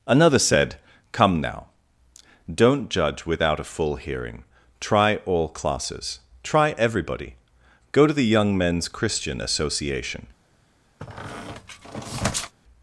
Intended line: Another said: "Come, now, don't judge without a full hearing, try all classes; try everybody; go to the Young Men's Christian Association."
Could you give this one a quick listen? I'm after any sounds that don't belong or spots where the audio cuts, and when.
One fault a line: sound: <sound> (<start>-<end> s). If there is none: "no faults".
sound: squeak (11.0-12.5 s)